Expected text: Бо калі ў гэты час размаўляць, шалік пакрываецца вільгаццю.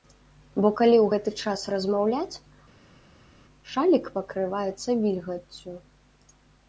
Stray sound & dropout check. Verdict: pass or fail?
pass